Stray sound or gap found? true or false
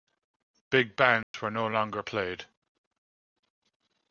true